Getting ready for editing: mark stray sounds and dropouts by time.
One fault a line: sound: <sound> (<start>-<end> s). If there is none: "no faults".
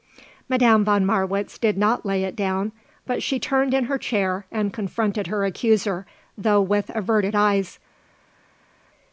no faults